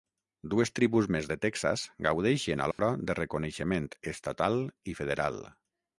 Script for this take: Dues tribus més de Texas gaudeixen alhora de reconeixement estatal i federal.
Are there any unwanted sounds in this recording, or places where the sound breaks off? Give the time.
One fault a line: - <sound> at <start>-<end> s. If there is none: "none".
- dropout at 2.7-2.8 s